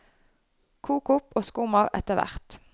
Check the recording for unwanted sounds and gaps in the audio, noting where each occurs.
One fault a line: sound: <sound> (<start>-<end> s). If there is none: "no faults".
no faults